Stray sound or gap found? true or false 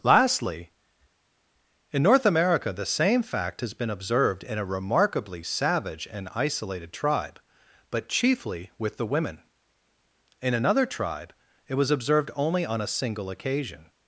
false